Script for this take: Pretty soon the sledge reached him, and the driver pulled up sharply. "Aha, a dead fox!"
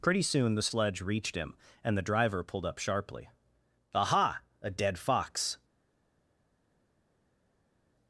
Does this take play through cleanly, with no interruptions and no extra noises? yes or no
yes